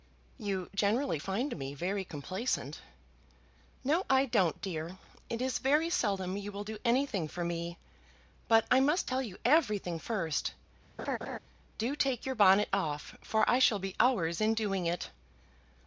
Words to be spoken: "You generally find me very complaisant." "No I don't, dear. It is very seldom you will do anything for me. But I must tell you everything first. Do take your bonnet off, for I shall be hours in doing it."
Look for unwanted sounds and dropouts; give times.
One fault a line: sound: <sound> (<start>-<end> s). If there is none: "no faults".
sound: laugh (11.0-11.4 s)